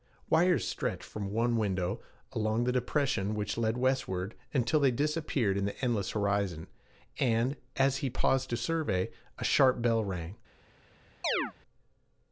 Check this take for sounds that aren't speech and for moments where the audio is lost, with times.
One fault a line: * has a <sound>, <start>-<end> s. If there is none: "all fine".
* has a chirp, 11.2-11.5 s